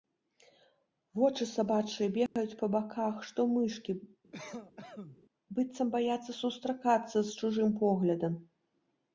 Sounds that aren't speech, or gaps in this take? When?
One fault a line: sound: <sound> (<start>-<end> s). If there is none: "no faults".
sound: dropout (2.3-2.4 s)
sound: cough (4.3-5.2 s)